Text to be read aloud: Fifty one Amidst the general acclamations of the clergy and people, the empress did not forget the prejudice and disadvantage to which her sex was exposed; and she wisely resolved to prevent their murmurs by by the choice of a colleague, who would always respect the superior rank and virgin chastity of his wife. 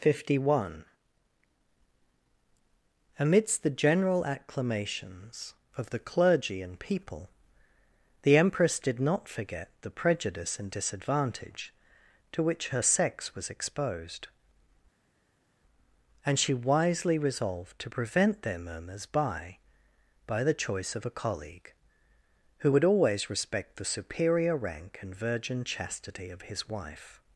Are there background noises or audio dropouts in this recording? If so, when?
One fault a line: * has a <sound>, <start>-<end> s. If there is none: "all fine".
all fine